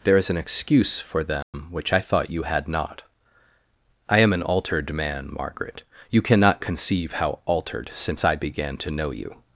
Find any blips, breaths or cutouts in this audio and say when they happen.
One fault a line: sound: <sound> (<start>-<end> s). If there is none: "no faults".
sound: dropout (1.4-1.5 s)